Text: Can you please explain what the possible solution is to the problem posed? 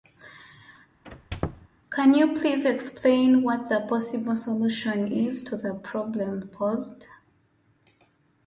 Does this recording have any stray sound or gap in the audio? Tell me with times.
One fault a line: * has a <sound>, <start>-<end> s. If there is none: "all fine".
* has a squeak, 1.0-1.7 s